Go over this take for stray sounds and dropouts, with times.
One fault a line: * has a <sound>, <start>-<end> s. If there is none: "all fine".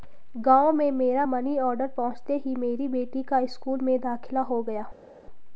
all fine